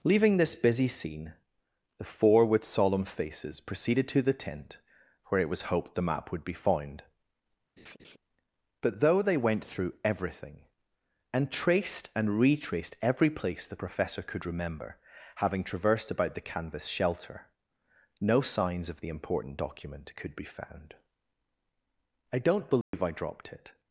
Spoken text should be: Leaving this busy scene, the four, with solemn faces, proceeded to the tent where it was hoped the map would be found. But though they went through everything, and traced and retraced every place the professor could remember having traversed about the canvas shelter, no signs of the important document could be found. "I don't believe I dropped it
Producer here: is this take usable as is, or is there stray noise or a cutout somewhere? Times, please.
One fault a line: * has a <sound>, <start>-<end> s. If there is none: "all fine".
* has a laugh, 7.8-8.2 s
* has a dropout, 22.8-22.9 s